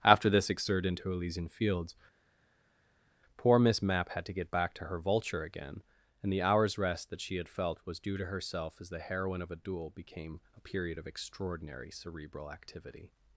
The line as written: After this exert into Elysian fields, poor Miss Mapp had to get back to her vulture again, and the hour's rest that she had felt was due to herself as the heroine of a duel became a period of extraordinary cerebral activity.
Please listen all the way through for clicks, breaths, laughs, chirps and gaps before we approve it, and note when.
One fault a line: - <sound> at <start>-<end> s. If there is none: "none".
none